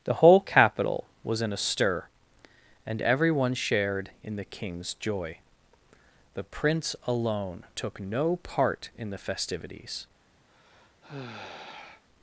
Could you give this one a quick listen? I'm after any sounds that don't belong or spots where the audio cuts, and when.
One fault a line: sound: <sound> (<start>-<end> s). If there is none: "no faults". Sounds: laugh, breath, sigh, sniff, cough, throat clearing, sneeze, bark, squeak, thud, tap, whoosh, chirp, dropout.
sound: sigh (10.5-12.0 s)